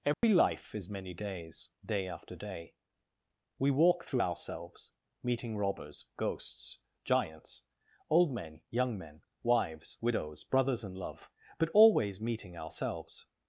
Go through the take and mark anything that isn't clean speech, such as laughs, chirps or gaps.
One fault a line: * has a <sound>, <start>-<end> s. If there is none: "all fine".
* has a dropout, 0.1-0.2 s